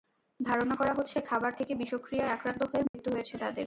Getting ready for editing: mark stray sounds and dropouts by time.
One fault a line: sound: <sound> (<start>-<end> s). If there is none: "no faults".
sound: dropout (2.9-2.9 s)